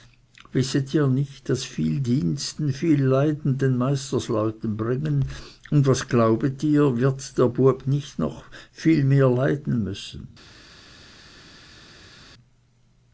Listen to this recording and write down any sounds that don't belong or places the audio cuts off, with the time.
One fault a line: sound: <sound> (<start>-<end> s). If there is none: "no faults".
no faults